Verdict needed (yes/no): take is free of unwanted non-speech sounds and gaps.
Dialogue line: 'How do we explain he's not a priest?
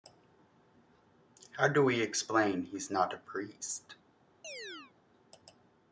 no